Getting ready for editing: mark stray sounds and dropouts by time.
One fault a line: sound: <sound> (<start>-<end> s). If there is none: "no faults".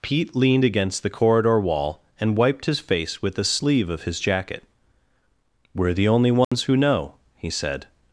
sound: dropout (6.4-6.5 s)